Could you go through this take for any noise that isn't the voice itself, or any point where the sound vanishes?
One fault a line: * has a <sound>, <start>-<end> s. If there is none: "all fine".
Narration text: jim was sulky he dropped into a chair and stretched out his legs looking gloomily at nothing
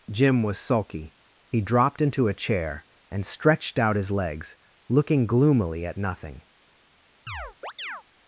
* has a chirp, 7.3-8.0 s